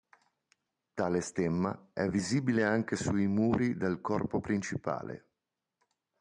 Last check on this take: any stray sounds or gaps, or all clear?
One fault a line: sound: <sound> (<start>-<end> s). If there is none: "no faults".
no faults